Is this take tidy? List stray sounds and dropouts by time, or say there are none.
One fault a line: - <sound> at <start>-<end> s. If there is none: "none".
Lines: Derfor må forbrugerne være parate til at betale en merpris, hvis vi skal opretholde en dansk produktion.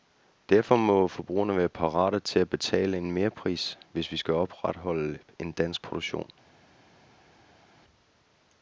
none